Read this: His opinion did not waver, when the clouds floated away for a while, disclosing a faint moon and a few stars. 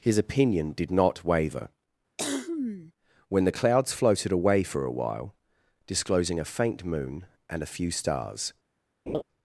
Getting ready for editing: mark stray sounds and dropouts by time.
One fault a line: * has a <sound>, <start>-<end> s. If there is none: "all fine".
* has a cough, 2.2-2.9 s
* has a laugh, 9.1-9.2 s